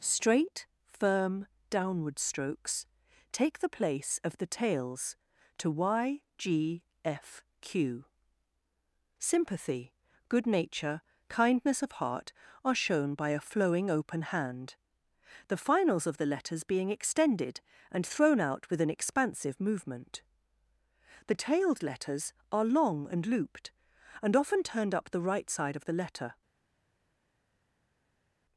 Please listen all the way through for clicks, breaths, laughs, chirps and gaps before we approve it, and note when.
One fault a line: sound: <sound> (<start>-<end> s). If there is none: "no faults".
no faults